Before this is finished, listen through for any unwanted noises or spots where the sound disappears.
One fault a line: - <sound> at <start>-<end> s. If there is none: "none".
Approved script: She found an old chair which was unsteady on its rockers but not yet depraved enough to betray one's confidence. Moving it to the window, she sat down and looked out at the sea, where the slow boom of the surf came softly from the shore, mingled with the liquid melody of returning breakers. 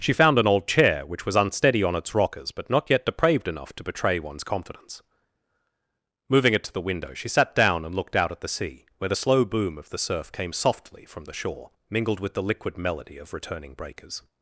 none